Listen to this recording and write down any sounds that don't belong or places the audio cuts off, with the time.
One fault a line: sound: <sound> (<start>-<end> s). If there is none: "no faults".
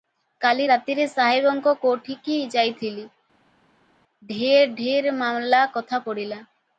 no faults